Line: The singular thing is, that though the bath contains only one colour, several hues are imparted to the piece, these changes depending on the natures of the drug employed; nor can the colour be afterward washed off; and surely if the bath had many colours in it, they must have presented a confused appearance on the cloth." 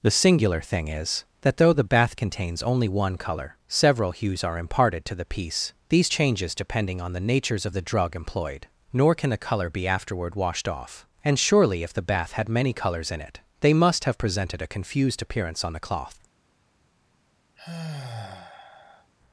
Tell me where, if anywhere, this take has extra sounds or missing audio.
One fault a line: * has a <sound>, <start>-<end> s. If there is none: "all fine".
* has a sigh, 17.6-19.1 s